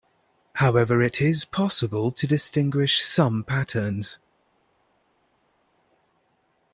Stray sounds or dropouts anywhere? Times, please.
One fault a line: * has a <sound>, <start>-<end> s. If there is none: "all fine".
all fine